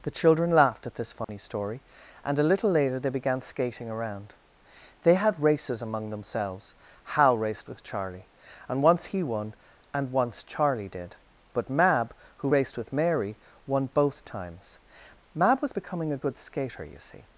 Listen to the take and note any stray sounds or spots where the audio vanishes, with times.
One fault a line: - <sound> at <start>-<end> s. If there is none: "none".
- dropout at 1.2-1.3 s